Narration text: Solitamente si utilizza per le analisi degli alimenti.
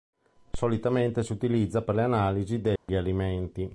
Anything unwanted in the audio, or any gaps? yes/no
yes